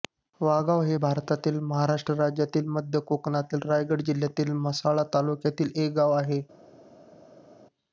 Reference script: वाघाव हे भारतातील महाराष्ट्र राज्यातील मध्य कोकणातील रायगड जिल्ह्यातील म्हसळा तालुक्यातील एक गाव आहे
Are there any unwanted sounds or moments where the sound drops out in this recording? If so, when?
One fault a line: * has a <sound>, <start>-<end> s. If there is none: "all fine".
all fine